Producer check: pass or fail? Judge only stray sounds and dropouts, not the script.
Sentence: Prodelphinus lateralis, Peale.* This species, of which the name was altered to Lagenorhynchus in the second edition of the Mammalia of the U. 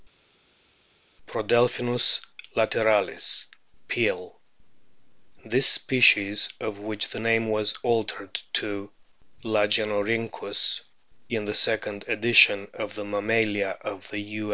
pass